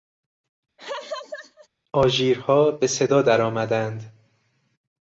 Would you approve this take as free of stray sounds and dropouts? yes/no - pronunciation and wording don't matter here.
no